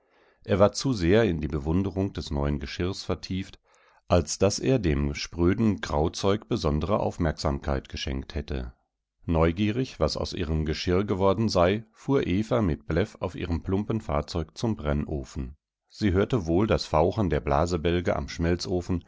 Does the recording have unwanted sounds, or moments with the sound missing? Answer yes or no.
no